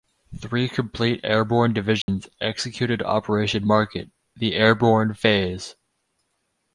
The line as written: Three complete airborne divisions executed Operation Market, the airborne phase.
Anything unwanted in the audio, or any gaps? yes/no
yes